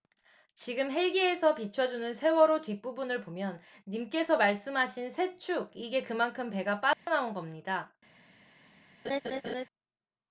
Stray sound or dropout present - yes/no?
yes